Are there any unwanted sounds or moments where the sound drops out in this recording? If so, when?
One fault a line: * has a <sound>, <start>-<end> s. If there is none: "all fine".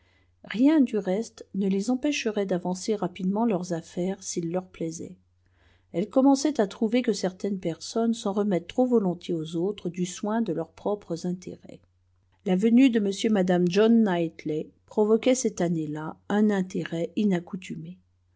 all fine